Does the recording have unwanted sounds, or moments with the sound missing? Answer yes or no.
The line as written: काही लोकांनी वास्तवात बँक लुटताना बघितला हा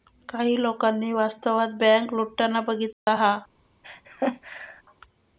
yes